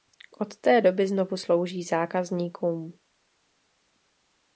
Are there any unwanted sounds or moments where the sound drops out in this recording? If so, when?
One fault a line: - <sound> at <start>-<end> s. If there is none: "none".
none